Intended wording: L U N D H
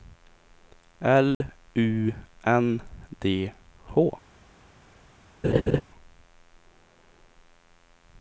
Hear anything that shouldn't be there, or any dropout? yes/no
yes